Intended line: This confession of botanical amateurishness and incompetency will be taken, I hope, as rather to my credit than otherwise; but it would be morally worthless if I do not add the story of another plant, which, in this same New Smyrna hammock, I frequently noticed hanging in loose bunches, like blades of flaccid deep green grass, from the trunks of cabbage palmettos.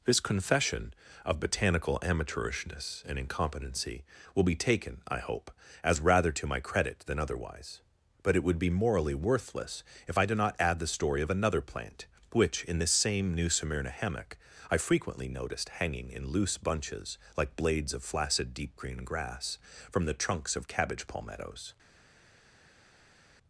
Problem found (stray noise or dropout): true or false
false